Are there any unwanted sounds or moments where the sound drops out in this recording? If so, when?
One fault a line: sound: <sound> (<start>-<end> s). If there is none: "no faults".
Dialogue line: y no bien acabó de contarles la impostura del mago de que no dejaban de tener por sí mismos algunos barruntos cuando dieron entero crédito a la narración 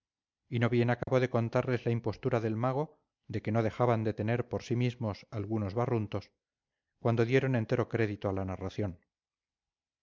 sound: dropout (1.0-1.1 s)